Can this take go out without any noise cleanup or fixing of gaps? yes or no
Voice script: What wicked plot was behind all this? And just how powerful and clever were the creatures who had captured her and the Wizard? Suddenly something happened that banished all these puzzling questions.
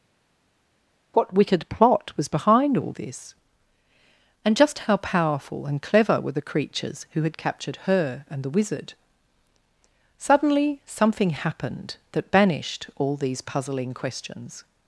yes